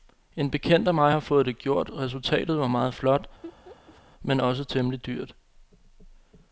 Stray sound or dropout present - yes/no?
yes